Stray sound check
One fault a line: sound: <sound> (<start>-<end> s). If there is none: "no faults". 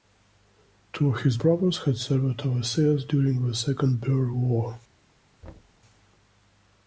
sound: thud (5.4-5.8 s)